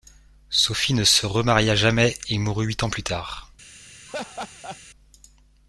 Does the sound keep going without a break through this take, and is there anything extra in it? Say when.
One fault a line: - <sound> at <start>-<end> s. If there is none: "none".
- laugh at 4.1-4.8 s